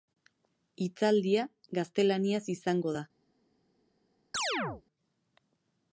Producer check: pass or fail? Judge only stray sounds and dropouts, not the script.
fail